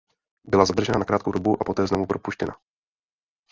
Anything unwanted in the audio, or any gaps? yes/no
no